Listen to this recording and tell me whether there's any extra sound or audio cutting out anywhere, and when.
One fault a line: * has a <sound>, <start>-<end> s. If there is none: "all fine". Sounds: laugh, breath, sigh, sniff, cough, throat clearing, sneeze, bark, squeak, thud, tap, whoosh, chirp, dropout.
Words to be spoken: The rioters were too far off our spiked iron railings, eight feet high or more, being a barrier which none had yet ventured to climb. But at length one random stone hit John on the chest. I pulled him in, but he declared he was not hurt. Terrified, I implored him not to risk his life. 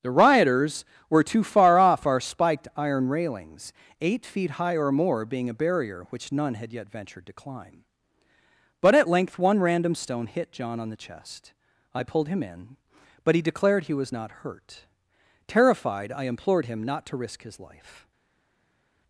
all fine